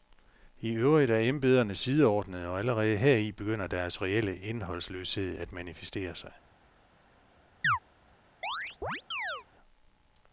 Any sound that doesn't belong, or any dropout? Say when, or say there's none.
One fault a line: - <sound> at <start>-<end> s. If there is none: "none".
- chirp at 7.6-7.8 s
- chirp at 8.4-9.5 s